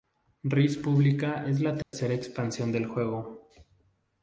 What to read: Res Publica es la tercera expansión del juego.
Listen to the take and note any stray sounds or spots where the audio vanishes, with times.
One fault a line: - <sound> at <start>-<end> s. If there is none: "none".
- dropout at 1.8-1.9 s